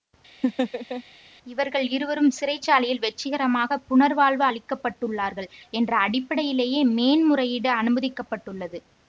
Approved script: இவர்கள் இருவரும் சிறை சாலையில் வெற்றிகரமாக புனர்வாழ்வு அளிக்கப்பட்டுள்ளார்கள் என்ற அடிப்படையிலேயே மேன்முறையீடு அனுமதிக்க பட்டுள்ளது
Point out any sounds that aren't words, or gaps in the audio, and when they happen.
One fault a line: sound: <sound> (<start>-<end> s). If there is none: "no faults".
sound: laugh (0.4-1.0 s)